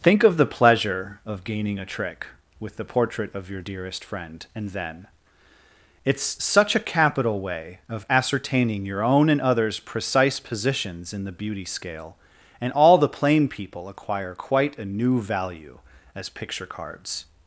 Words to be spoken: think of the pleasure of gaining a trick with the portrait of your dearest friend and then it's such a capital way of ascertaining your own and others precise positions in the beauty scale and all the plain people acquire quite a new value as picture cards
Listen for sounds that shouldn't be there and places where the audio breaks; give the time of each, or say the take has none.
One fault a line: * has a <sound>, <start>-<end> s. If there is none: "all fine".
all fine